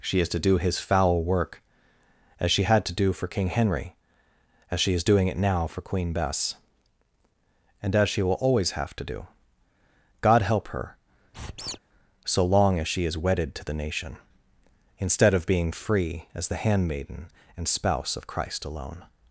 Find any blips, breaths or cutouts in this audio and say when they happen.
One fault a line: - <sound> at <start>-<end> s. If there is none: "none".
- squeak at 11.3-11.8 s